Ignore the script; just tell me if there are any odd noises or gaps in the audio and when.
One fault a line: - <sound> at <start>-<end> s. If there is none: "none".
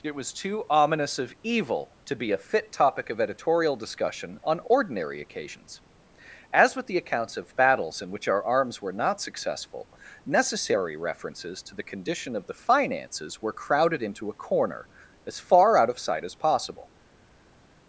none